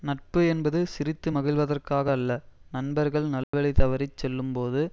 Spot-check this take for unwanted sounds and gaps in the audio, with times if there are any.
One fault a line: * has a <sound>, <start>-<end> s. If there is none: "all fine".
* has a dropout, 3.4-3.5 s